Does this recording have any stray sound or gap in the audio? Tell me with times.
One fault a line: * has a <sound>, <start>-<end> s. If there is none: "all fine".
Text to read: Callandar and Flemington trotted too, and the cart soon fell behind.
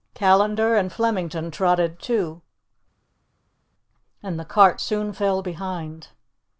all fine